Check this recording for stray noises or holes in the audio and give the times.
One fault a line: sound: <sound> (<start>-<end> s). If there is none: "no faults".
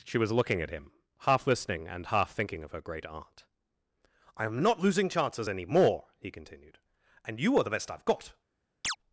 sound: chirp (8.8-9.0 s)